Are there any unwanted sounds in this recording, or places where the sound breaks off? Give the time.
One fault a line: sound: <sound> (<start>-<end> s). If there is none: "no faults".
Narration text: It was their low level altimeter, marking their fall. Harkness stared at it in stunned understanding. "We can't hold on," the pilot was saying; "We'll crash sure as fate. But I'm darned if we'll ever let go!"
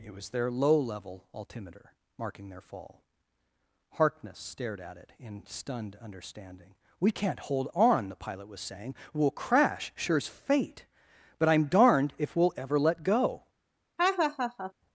sound: laugh (14.0-14.7 s)